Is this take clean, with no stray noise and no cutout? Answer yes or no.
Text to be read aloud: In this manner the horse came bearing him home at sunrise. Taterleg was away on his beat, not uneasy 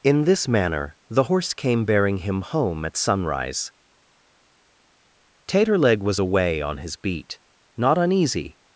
yes